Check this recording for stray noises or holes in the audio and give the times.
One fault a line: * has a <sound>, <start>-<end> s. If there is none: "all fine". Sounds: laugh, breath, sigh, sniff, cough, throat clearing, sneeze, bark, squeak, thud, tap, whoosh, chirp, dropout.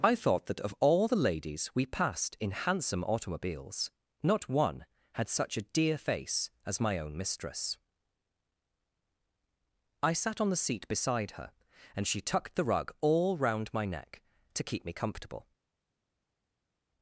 all fine